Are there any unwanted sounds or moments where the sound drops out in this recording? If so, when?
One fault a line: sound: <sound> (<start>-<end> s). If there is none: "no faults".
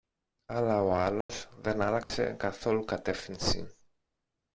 sound: dropout (1.2-1.3 s)
sound: dropout (2.0-2.1 s)